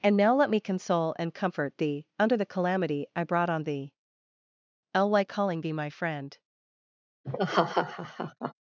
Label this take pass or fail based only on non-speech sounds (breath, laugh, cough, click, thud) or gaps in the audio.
fail